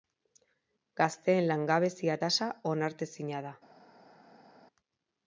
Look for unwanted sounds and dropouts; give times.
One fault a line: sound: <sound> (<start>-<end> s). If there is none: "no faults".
no faults